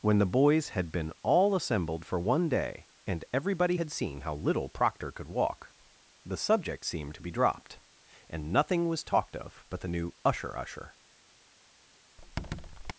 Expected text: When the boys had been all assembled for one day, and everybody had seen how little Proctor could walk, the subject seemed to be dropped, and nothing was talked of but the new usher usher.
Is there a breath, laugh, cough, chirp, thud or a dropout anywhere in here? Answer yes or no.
yes